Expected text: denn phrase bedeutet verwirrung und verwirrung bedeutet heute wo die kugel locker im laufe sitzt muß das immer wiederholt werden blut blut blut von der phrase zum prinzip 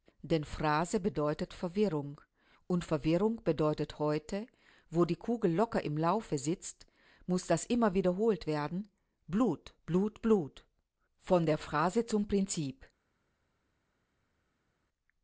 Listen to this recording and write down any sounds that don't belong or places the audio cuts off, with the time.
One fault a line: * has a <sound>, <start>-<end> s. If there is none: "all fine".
all fine